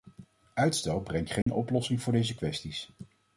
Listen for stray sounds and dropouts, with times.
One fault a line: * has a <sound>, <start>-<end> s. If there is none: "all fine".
* has a dropout, 1.4-1.5 s